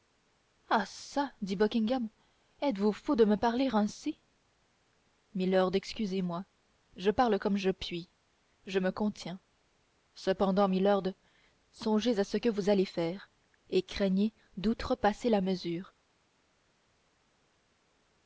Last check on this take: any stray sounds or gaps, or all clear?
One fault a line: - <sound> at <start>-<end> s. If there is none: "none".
none